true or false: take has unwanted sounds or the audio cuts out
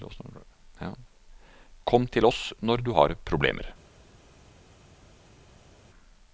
false